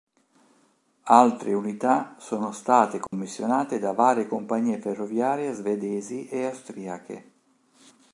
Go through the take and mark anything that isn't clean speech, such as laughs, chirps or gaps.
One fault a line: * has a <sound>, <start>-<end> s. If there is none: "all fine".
* has a dropout, 3.1-3.1 s